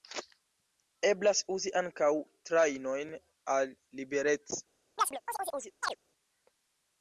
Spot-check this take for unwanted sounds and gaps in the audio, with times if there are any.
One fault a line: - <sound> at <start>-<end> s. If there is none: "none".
- chirp at 5.0-6.0 s